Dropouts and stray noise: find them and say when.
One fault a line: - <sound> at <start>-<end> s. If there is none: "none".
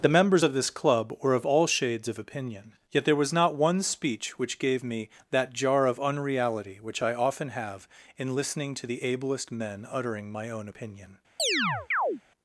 - chirp at 11.4-12.2 s